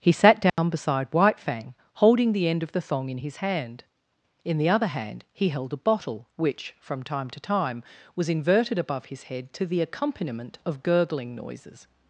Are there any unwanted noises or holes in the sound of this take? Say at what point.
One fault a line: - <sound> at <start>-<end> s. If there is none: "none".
- dropout at 0.5-0.6 s